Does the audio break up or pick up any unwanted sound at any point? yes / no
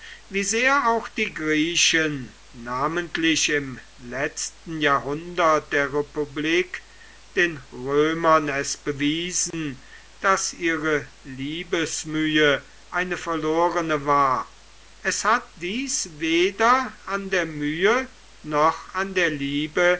yes